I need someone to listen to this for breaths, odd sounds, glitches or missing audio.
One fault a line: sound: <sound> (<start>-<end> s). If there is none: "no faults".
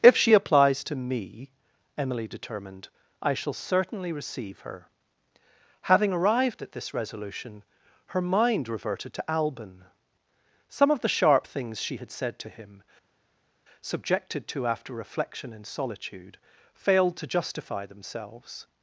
no faults